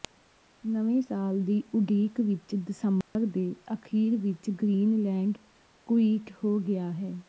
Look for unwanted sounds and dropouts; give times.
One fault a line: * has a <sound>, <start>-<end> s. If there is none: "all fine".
* has a dropout, 3.0-3.2 s